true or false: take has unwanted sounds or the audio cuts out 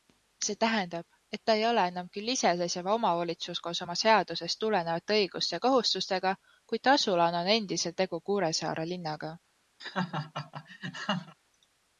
true